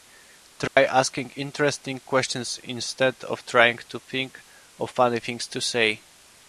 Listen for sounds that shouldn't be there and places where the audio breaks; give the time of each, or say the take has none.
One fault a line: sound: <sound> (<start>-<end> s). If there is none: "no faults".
sound: dropout (0.7-0.8 s)